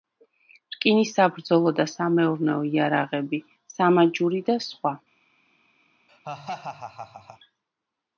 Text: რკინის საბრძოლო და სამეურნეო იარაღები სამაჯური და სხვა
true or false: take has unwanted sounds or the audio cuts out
true